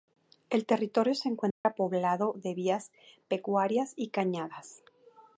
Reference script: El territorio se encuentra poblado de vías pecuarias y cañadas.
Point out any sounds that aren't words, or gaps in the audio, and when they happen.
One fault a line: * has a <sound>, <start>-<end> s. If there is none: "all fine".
* has a dropout, 1.5-1.6 s